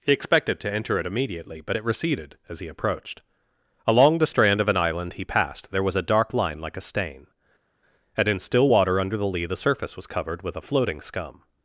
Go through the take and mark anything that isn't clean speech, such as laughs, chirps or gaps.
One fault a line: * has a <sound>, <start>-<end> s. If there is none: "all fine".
all fine